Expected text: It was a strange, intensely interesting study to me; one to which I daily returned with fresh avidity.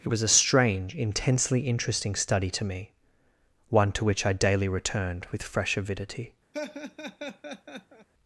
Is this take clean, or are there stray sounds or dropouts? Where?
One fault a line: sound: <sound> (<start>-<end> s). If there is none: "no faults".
sound: laugh (6.5-8.1 s)